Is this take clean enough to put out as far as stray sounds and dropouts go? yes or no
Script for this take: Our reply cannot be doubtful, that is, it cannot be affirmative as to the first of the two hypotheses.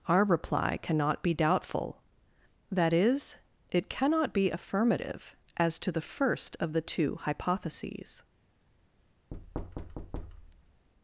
no